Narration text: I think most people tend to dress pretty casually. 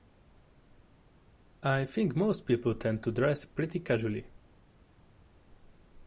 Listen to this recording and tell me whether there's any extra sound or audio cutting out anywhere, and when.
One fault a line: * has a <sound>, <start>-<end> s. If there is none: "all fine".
all fine